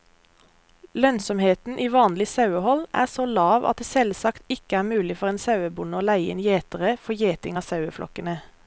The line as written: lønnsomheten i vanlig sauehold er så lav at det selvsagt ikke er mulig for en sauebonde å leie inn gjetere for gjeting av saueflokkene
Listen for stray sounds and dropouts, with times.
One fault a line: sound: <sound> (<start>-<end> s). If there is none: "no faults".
no faults